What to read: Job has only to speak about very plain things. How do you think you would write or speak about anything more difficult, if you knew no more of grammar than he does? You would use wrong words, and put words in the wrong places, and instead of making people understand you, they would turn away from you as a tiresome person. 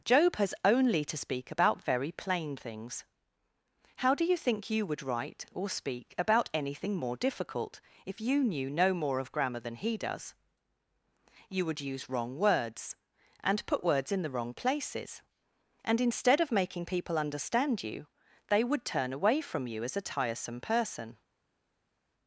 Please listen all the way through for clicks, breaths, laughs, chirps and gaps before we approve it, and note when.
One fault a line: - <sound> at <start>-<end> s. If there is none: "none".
none